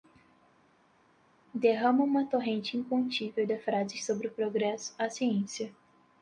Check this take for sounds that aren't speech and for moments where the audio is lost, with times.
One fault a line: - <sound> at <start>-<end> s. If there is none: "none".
none